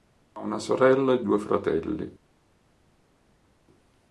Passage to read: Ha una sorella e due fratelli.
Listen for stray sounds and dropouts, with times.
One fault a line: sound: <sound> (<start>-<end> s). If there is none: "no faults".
no faults